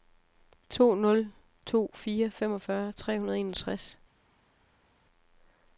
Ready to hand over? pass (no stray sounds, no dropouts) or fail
pass